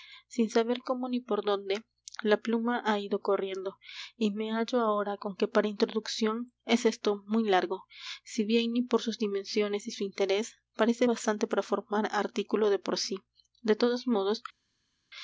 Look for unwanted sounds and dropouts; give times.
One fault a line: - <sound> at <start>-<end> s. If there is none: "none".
none